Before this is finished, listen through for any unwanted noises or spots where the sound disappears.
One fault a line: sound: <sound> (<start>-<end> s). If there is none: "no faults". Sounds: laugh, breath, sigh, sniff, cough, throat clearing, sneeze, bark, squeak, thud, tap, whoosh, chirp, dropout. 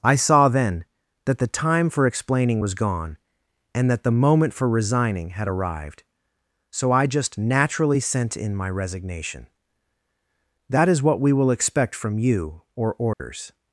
sound: dropout (13.1-13.2 s)